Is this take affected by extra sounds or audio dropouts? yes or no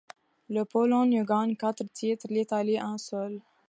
no